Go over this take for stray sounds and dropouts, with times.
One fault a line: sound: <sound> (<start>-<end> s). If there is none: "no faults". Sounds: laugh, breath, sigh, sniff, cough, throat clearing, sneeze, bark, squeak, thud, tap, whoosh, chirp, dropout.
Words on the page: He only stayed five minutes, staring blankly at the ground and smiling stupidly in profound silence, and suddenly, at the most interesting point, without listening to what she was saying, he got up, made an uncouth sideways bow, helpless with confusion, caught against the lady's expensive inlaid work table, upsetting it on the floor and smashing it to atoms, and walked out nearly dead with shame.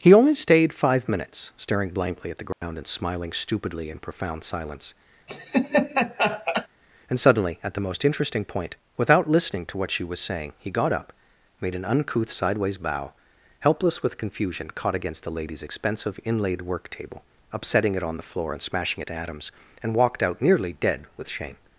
sound: dropout (2.5-2.6 s)
sound: laugh (5.3-6.7 s)